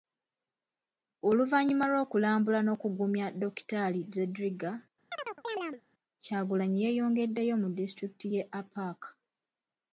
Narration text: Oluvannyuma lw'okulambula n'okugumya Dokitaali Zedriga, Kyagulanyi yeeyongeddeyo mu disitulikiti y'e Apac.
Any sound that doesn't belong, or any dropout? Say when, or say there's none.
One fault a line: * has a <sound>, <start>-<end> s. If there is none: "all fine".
* has a chirp, 5.1-5.8 s